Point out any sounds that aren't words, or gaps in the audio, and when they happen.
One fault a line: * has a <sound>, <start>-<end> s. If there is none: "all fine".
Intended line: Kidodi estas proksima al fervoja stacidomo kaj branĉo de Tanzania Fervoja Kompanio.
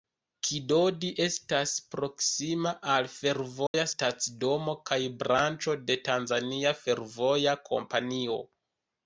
* has a dropout, 3.7-3.7 s